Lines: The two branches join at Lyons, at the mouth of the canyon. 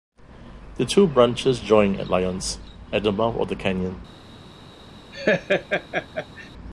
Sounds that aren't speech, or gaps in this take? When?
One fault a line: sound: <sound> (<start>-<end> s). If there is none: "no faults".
sound: laugh (5.1-6.5 s)